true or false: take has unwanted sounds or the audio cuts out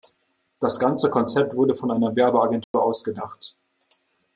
true